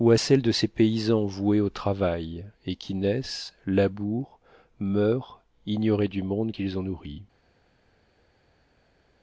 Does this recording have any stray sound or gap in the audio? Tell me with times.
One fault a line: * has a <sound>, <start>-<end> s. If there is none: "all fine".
all fine